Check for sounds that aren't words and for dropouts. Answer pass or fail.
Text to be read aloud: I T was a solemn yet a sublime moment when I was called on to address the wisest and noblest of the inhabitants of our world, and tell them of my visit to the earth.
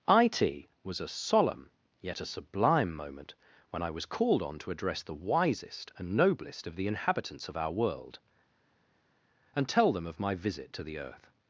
pass